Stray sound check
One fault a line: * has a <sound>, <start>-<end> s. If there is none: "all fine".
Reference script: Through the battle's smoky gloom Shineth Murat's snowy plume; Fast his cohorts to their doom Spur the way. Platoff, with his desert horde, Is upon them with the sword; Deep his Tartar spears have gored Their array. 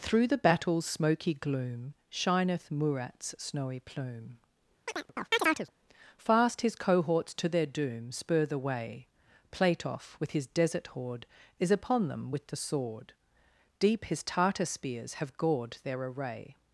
* has a chirp, 4.9-5.7 s